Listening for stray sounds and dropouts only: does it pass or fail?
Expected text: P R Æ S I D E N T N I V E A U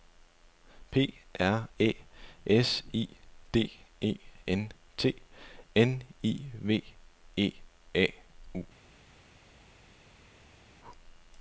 pass